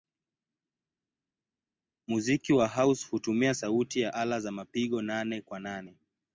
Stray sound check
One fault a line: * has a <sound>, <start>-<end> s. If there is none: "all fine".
all fine